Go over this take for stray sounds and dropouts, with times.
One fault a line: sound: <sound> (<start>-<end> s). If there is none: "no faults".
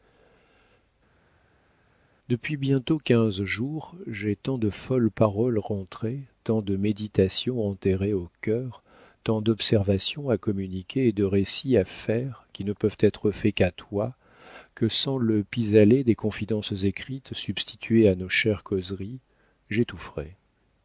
no faults